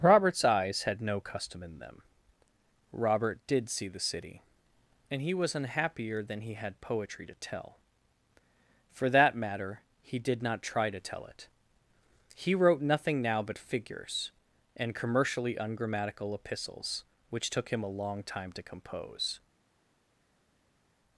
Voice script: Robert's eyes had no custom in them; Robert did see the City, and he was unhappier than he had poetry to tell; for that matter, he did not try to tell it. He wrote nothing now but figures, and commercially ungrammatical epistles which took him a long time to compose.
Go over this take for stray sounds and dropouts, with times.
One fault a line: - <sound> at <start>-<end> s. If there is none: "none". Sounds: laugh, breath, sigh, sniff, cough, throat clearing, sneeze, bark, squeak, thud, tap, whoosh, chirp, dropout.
none